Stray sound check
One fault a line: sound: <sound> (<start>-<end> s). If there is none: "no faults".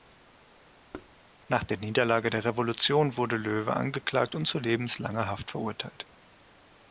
sound: thud (0.9-1.1 s)